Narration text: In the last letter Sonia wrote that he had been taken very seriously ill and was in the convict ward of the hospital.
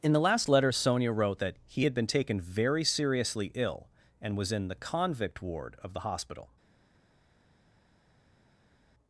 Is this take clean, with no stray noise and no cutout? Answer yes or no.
yes